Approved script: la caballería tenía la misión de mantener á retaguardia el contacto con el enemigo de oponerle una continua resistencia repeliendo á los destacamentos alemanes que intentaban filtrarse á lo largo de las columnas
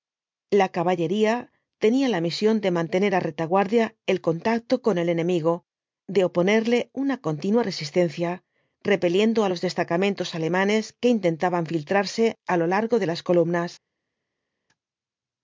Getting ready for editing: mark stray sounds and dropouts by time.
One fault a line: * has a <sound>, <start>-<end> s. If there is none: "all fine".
all fine